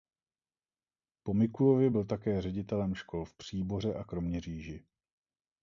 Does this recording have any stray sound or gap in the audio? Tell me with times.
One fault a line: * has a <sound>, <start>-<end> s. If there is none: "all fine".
all fine